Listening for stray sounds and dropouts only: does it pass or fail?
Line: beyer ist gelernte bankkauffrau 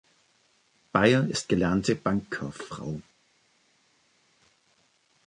pass